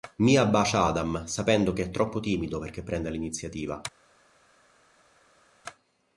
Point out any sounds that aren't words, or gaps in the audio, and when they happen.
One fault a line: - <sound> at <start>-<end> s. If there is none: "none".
none